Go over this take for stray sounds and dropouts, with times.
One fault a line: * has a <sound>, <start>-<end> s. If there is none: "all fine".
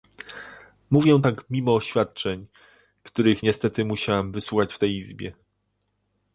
all fine